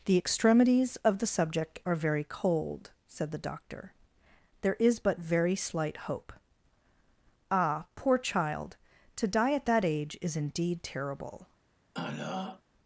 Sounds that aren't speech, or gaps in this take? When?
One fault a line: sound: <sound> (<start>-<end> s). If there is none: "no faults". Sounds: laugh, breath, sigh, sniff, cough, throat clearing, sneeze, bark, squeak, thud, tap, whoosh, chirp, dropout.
sound: throat clearing (11.9-12.6 s)